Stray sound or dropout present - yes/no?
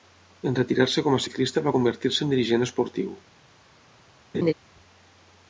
yes